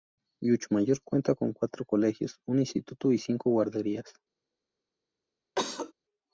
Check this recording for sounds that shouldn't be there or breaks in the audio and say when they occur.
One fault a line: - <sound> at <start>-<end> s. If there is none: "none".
- cough at 5.6-5.9 s